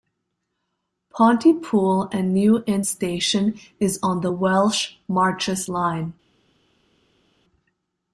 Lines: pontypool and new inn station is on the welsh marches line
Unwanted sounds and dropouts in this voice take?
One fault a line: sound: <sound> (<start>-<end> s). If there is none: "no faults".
no faults